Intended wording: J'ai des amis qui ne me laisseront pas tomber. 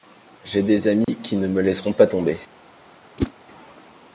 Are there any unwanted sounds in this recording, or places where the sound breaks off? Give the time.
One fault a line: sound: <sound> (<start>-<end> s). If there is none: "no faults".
sound: dropout (1.0-1.1 s)
sound: whoosh (3.2-3.3 s)